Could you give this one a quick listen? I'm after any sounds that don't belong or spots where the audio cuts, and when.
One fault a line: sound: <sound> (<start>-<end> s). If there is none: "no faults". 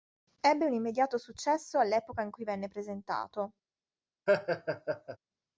sound: laugh (4.3-5.2 s)